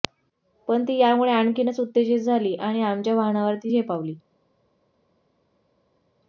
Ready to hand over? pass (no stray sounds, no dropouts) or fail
pass